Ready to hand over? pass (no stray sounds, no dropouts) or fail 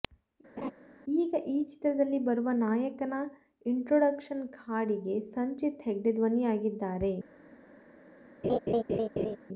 fail